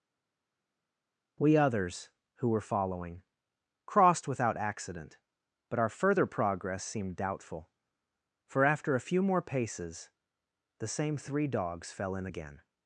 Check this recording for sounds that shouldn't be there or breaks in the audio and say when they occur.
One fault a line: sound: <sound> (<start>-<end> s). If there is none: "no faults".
no faults